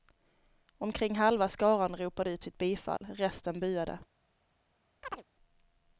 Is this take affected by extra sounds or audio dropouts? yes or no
yes